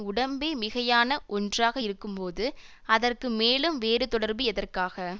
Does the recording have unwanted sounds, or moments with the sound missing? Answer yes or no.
no